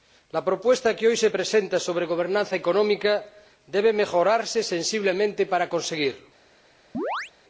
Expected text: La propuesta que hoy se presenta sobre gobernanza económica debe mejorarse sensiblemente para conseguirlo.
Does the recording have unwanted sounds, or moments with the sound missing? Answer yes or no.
yes